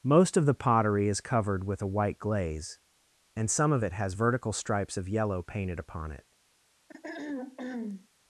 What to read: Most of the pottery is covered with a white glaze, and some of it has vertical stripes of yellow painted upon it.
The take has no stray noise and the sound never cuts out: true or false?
false